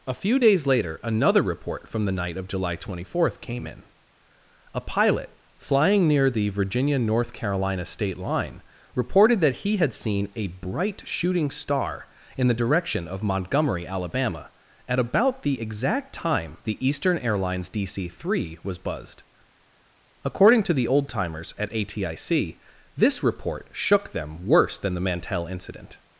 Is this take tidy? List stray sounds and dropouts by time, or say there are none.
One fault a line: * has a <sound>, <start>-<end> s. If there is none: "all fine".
all fine